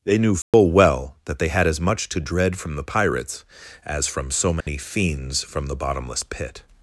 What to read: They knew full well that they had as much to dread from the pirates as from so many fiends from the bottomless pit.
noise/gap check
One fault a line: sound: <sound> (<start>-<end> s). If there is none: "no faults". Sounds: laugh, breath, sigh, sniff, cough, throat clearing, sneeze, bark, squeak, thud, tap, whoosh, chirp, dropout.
sound: dropout (0.4-0.5 s)
sound: dropout (4.6-4.7 s)